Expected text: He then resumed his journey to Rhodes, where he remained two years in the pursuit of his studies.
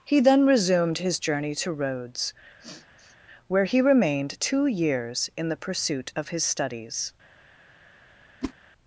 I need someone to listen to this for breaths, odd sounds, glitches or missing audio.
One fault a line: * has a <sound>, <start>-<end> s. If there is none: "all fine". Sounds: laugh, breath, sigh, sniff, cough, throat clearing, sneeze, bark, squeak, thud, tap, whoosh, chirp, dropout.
* has a sniff, 2.6-3.2 s
* has a whoosh, 8.4-8.5 s